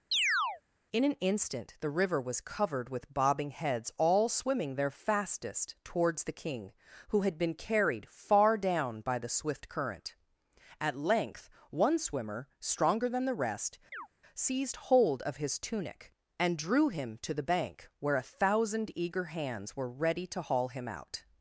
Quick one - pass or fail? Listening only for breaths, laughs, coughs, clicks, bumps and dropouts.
fail